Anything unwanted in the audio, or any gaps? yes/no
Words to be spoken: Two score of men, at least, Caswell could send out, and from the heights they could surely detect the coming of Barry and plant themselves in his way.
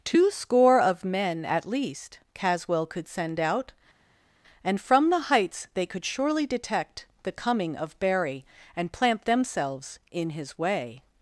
no